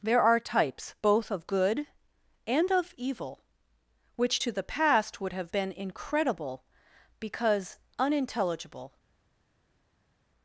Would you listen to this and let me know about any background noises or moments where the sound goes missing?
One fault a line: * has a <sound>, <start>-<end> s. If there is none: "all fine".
all fine